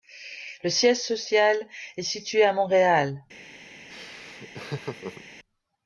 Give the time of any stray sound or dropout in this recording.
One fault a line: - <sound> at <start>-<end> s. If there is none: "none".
- laugh at 3.9-5.2 s